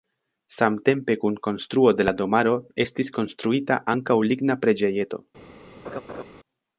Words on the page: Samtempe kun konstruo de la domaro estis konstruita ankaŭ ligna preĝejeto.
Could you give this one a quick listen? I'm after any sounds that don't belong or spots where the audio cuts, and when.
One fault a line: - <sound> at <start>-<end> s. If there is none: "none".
- laugh at 5.8-6.2 s